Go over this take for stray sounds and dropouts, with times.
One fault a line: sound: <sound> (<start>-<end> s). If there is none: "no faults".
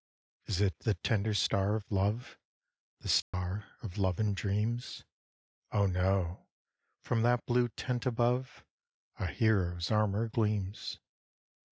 sound: dropout (3.2-3.3 s)